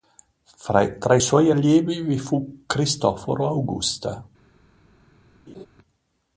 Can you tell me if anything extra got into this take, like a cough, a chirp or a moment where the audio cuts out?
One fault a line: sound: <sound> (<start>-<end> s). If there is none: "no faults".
sound: laugh (5.5-5.7 s)